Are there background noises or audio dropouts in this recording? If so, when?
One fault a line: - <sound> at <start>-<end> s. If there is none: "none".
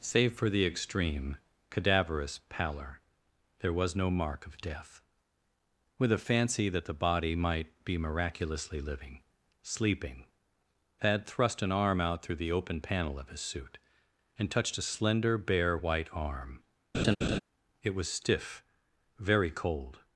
- laugh at 16.9-17.4 s